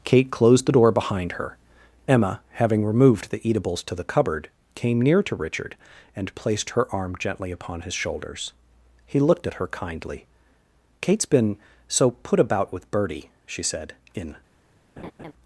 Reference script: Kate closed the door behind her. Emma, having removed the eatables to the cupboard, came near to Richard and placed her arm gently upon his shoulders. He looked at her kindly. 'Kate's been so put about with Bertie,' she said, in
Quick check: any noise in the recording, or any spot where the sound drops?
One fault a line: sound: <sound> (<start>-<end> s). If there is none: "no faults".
sound: laugh (15.0-15.3 s)